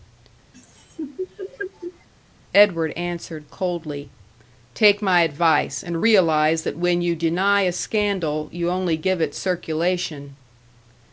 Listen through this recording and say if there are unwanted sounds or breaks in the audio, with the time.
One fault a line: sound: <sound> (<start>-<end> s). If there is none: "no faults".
sound: laugh (0.5-2.1 s)